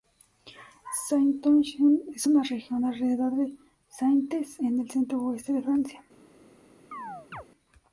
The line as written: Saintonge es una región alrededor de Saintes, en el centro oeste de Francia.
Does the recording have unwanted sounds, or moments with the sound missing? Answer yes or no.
yes